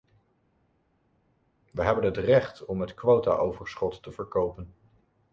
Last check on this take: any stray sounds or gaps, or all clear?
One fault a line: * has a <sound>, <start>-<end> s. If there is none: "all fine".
all fine